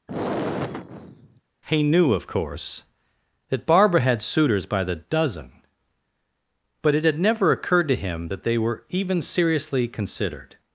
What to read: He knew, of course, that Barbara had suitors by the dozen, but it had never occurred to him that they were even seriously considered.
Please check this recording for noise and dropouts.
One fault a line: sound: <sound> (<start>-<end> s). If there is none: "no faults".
sound: sigh (0.1-1.4 s)